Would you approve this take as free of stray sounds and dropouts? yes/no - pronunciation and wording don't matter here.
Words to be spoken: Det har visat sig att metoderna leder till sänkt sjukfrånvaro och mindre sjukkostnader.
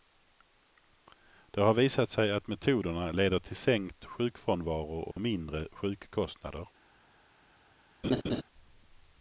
no